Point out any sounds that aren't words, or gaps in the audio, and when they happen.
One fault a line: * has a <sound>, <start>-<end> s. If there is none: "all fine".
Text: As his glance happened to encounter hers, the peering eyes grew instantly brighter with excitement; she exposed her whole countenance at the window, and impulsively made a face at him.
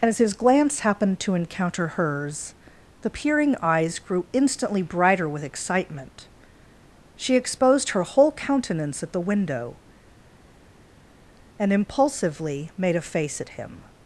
all fine